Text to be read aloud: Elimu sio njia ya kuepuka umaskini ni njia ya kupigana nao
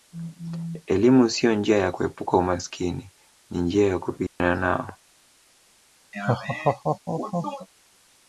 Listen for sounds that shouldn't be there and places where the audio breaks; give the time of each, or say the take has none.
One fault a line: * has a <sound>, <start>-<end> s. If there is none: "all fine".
* has a dropout, 4.3-4.4 s
* has a laugh, 6.1-7.7 s